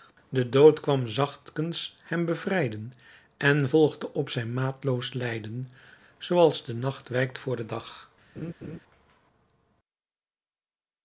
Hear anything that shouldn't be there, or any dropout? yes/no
yes